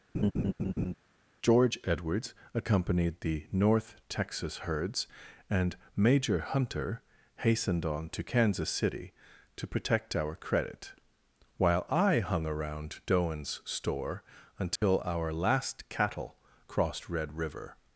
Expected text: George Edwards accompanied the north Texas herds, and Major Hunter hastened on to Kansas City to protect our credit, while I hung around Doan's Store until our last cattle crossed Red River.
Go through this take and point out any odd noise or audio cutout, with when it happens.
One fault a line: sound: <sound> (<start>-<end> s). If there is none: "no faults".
sound: laugh (0.1-0.9 s)
sound: dropout (14.8-14.8 s)